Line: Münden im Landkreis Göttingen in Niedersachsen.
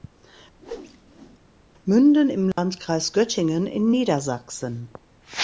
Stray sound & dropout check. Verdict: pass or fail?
fail